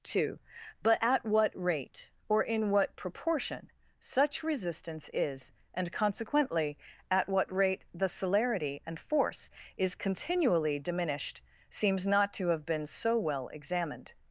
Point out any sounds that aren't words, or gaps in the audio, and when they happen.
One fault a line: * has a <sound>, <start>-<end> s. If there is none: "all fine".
all fine